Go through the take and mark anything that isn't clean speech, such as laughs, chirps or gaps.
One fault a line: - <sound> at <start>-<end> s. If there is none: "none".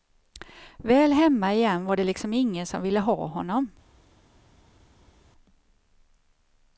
none